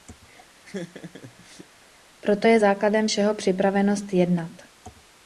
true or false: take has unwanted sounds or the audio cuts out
true